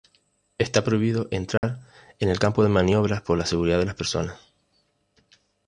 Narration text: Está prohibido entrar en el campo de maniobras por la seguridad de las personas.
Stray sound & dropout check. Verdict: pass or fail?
fail